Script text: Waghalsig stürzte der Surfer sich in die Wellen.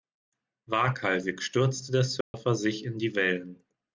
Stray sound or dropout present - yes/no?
yes